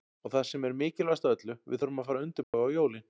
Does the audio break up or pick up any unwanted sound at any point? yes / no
yes